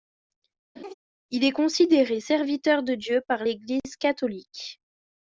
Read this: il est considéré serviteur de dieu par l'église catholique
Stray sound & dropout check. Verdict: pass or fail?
fail